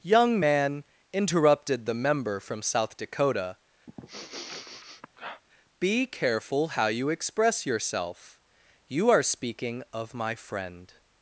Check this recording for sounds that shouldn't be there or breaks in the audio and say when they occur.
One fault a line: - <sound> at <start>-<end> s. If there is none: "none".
- sniff at 3.9-5.4 s